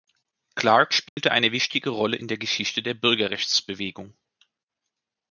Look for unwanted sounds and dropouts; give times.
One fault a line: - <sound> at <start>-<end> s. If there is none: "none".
- dropout at 1.1-1.2 s